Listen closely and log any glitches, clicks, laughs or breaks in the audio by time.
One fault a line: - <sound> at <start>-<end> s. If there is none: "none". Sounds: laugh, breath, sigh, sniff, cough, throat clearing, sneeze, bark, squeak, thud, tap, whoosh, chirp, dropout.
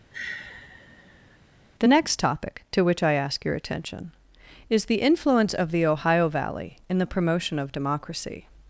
- sigh at 0.1-1.4 s